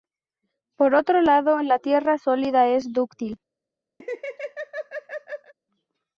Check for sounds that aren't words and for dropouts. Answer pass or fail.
fail